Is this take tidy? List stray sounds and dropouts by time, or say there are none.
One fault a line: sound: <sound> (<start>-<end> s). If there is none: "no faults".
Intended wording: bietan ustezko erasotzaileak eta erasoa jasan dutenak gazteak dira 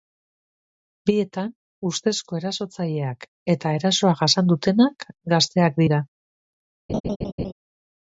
sound: laugh (6.9-7.5 s)